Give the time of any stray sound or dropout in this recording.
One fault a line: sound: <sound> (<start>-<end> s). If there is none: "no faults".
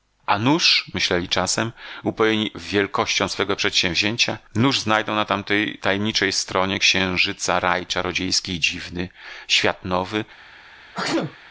sound: sneeze (10.9-11.4 s)